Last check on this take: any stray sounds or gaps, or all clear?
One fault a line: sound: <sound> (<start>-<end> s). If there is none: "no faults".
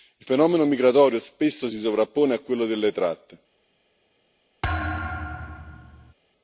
sound: thud (4.6-6.1 s)